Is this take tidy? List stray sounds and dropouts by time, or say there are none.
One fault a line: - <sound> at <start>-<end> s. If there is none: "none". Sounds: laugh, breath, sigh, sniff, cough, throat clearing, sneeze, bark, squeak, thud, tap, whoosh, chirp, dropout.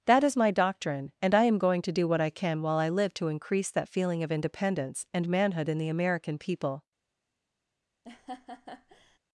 - laugh at 8.0-9.2 s